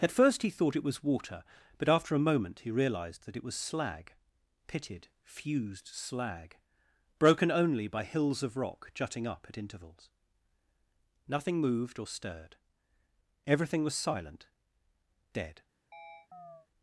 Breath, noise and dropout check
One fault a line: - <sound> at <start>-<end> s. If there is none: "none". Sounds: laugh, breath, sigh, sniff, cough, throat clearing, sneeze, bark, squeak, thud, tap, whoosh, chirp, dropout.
- chirp at 15.9-16.7 s